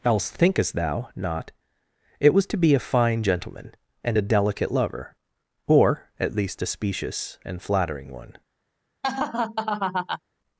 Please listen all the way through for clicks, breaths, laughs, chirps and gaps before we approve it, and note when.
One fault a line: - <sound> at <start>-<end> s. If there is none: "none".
- laugh at 9.0-10.2 s